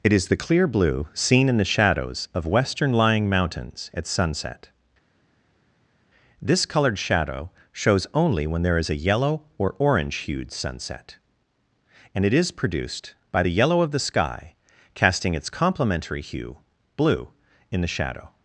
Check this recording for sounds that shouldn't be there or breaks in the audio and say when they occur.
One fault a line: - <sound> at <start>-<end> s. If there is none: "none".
none